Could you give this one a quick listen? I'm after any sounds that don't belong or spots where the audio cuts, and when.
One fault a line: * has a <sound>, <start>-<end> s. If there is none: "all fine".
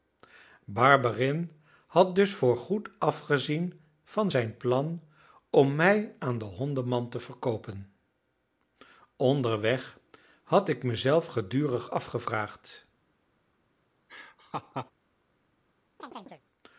* has a laugh, 14.1-14.9 s
* has a chirp, 16.0-16.4 s